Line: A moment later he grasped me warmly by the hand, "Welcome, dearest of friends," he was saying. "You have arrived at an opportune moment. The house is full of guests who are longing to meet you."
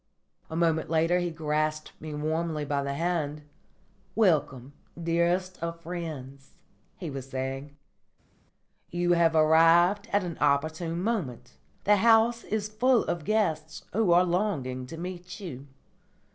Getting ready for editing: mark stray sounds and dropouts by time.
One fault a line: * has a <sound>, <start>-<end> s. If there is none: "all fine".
all fine